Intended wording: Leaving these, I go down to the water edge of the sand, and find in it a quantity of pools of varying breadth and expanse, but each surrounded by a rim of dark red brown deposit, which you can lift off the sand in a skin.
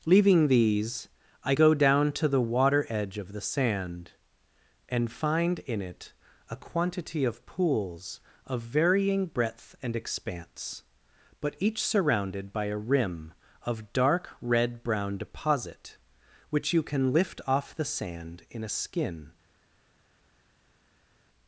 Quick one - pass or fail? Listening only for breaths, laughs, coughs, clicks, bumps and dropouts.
pass